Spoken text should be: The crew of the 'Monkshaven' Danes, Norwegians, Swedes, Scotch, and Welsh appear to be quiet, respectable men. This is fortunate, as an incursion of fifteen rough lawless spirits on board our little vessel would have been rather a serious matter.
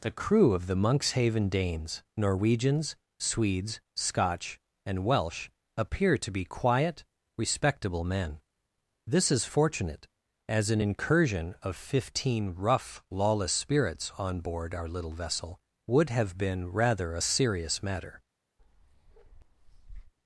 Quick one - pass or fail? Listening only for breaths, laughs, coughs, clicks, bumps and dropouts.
fail